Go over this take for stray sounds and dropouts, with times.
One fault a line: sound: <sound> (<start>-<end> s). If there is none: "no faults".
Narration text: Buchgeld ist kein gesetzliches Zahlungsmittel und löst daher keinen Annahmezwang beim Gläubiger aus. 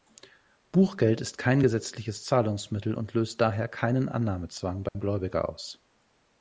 sound: dropout (4.9-5.0 s)